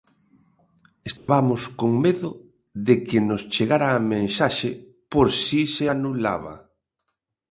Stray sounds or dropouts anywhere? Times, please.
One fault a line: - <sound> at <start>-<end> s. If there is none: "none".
- dropout at 1.2-1.3 s